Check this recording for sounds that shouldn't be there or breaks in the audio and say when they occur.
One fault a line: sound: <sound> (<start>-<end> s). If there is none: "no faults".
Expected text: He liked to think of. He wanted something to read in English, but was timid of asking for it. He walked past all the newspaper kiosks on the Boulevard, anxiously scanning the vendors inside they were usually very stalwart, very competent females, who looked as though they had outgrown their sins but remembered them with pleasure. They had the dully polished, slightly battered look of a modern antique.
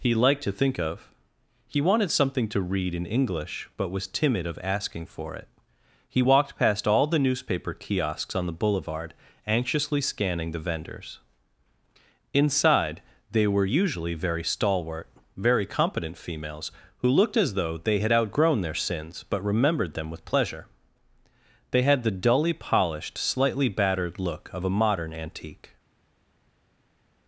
no faults